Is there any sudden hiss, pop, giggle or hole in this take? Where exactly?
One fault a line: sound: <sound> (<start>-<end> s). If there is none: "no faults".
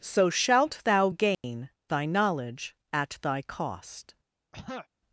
sound: dropout (1.3-1.4 s)
sound: throat clearing (4.5-4.9 s)